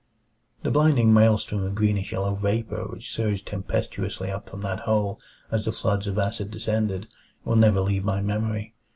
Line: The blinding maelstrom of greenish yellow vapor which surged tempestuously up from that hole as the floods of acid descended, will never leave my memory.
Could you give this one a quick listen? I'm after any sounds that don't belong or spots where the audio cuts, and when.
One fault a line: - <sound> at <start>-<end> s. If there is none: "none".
none